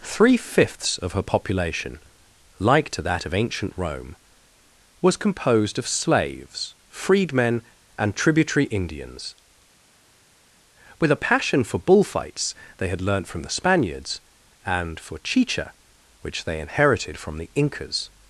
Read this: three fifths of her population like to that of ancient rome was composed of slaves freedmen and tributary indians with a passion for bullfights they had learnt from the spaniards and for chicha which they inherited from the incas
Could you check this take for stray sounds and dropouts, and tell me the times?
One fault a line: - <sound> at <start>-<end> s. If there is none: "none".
none